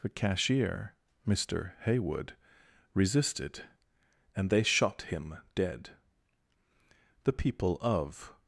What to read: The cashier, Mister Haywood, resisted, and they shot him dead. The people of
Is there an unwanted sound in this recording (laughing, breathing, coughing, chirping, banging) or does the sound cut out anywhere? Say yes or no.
no